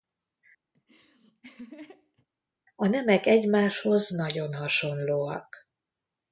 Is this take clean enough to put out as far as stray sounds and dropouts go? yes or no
no